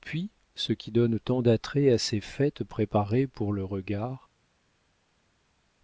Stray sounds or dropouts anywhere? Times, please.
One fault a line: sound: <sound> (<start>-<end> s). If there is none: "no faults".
no faults